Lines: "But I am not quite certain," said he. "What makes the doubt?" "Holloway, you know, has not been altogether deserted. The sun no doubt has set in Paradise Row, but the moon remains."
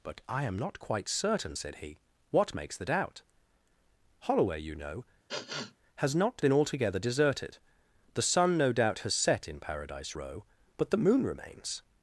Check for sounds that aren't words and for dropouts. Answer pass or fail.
fail